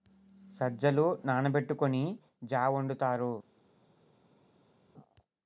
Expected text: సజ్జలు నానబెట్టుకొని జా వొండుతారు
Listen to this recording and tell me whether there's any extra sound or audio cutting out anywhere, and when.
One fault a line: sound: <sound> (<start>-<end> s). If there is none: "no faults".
no faults